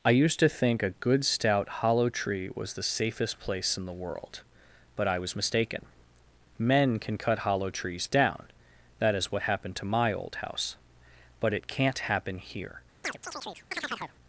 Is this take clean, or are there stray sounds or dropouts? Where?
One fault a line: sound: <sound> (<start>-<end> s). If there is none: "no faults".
sound: chirp (13.0-14.2 s)